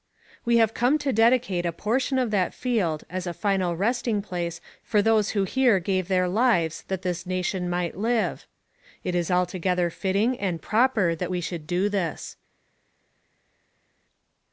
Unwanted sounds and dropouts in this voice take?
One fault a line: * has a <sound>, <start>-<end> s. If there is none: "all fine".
all fine